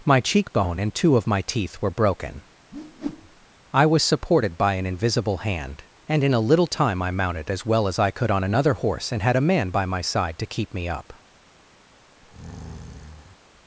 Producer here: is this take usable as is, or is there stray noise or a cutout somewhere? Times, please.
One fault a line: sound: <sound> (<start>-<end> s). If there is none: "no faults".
sound: whoosh (2.7-3.5 s)
sound: breath (12.2-13.4 s)